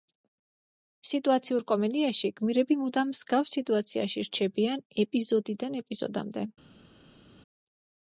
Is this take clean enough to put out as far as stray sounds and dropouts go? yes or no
yes